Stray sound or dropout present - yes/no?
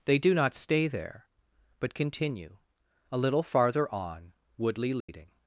yes